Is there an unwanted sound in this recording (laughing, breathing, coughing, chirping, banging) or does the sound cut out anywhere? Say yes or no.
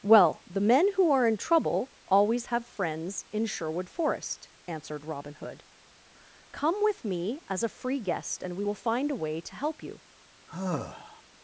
yes